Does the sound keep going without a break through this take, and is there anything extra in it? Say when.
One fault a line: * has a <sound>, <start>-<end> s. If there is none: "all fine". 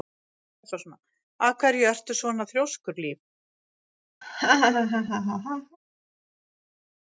* has a laugh, 4.2-5.8 s